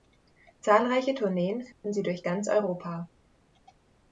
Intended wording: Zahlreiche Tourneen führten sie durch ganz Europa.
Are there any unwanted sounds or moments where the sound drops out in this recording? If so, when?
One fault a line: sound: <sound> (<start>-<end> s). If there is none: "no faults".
sound: dropout (1.7-1.8 s)